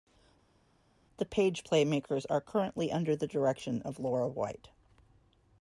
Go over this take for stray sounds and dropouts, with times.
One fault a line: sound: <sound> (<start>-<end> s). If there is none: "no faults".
no faults